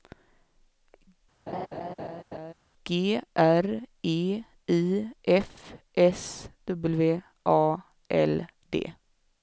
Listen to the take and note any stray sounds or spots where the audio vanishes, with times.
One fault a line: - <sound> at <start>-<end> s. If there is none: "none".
- laugh at 1.5-2.5 s